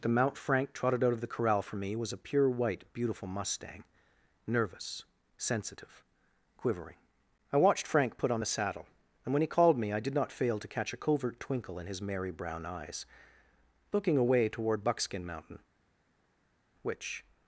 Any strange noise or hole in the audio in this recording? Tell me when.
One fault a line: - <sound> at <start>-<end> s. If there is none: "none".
none